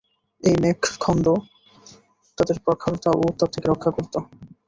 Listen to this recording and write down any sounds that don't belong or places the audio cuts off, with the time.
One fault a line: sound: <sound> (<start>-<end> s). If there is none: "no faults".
no faults